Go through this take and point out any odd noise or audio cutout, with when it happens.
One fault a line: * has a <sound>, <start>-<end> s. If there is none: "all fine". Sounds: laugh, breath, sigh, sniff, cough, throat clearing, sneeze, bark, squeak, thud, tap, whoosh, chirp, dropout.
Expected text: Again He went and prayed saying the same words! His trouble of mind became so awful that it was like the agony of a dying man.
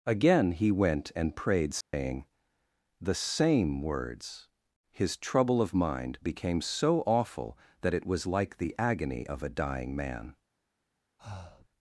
* has a dropout, 1.8-1.9 s
* has a breath, 11.2-11.7 s